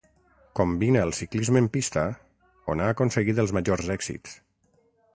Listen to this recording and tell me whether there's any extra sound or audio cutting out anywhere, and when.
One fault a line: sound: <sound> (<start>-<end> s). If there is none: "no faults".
no faults